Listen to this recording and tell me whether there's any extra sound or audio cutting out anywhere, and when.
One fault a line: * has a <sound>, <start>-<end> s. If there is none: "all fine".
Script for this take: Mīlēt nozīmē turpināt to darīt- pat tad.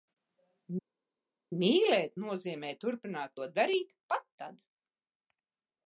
all fine